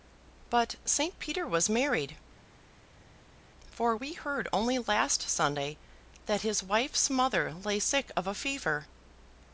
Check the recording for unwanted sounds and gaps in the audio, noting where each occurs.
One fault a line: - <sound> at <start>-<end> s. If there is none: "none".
none